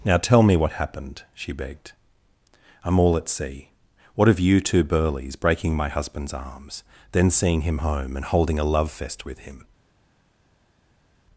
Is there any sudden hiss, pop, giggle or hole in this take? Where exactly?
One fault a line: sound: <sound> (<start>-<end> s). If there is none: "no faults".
no faults